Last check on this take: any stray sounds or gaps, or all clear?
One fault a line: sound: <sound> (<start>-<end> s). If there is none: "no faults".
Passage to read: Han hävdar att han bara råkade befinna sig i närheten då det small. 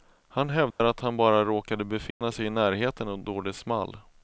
sound: dropout (0.7-0.8 s)
sound: dropout (2.1-2.2 s)